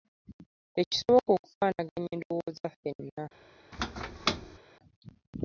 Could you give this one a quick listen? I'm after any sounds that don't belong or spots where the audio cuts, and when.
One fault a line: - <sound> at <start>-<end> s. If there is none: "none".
- squeak at 3.7-4.6 s